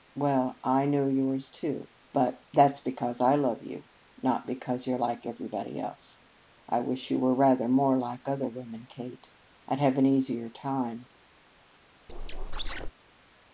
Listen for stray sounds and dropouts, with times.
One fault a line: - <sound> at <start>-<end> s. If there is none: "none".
- squeak at 12.1-12.9 s